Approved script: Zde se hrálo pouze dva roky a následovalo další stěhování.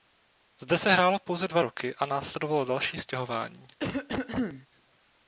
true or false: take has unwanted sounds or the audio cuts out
true